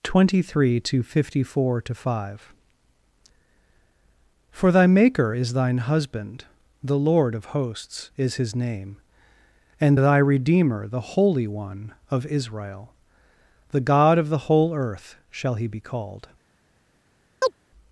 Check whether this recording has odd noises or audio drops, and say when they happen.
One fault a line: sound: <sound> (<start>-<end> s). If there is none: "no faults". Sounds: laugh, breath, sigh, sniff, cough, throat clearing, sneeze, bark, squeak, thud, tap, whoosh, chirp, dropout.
sound: chirp (17.4-17.5 s)